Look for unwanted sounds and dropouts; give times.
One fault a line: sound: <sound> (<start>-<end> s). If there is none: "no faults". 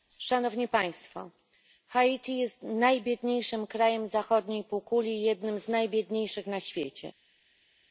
no faults